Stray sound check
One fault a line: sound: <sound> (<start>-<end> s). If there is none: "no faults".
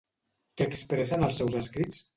no faults